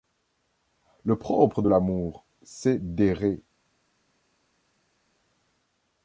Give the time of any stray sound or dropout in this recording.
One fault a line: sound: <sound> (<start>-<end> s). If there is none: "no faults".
no faults